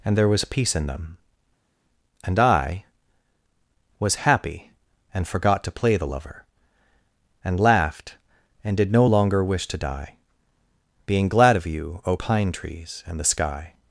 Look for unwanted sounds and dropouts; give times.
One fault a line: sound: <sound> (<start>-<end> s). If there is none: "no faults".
no faults